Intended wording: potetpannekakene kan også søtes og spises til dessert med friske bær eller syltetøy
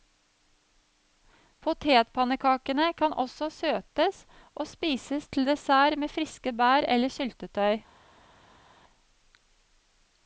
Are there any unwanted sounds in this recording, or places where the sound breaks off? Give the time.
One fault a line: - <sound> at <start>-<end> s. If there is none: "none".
none